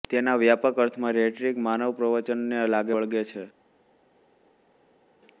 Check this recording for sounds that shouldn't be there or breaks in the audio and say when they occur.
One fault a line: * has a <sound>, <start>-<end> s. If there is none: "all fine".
all fine